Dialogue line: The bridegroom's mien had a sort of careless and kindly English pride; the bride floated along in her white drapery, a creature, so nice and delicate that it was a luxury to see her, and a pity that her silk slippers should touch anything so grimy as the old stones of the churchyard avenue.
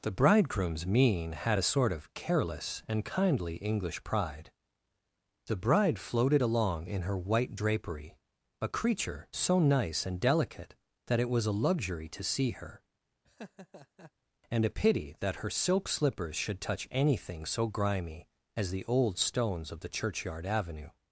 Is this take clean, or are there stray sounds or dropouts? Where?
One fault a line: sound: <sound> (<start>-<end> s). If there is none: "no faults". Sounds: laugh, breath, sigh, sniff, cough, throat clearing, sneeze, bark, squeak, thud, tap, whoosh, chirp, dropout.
sound: laugh (13.2-14.1 s)